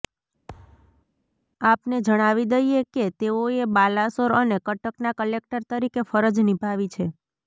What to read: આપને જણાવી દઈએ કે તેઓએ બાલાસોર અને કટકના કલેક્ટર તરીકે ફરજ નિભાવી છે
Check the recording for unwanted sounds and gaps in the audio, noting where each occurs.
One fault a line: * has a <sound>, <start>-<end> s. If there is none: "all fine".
* has a thud, 0.5-1.1 s